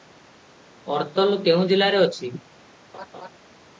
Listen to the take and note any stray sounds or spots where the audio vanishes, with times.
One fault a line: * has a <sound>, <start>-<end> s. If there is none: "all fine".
* has a laugh, 2.9-3.3 s